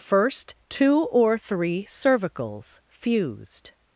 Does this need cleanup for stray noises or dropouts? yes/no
no